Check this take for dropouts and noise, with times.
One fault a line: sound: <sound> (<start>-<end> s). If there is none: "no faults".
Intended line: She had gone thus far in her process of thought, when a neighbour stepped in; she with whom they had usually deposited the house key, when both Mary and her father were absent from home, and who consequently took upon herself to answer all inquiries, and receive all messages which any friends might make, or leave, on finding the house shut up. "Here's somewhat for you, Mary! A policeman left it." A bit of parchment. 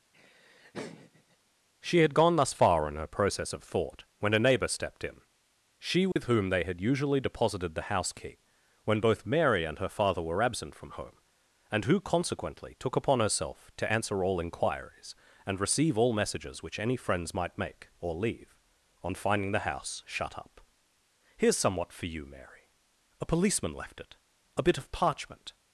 sound: laugh (0.1-1.4 s)
sound: dropout (6.1-6.2 s)